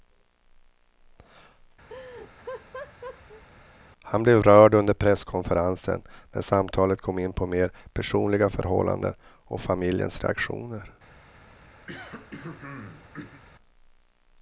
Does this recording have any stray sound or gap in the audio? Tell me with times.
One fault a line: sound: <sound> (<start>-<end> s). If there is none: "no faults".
sound: laugh (1.9-3.4 s)
sound: throat clearing (11.9-13.4 s)